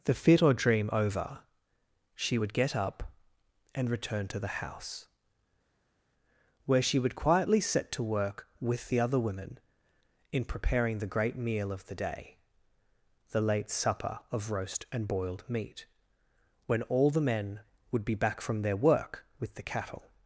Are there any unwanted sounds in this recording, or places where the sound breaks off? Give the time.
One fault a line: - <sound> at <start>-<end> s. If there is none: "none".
none